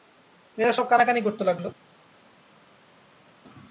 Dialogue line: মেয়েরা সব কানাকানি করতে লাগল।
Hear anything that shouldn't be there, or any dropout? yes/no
no